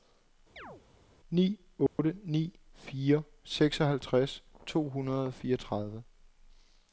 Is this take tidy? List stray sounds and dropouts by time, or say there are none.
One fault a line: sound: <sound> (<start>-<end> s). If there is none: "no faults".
sound: chirp (0.6-0.8 s)
sound: dropout (1.9-2.0 s)